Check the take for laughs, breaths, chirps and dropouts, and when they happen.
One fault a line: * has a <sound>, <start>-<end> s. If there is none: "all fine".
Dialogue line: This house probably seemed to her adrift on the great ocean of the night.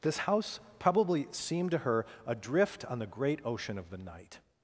all fine